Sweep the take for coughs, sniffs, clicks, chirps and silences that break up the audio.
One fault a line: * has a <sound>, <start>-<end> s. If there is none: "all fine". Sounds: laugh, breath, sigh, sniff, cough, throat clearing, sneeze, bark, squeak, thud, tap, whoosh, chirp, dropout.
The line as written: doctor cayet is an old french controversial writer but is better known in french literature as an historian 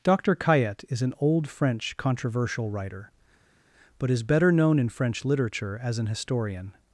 all fine